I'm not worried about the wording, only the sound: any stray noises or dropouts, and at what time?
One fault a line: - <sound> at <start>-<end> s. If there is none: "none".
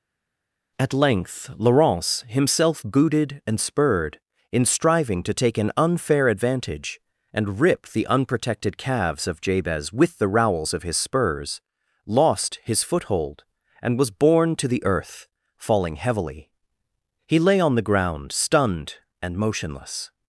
none